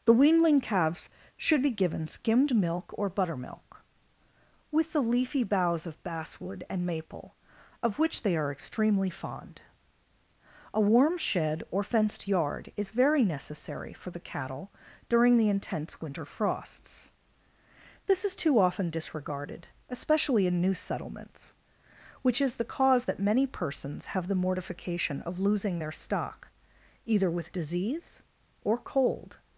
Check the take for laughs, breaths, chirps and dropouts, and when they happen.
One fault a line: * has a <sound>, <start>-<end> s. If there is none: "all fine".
all fine